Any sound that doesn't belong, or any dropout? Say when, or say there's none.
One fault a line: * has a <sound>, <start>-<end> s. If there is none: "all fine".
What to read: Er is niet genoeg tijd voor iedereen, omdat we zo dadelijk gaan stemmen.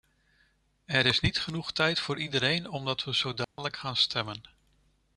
* has a dropout, 3.4-3.6 s